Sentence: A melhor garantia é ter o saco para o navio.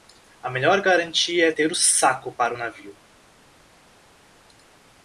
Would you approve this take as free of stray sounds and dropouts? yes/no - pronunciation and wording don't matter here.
yes